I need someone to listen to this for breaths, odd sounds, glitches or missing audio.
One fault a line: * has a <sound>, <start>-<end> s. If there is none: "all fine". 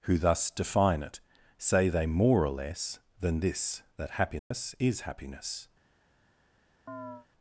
* has a dropout, 4.4-4.5 s
* has a chirp, 6.9-7.3 s